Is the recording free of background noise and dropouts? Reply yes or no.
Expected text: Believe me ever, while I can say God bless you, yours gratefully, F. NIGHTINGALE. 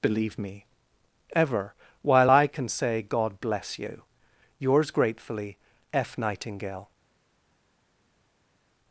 yes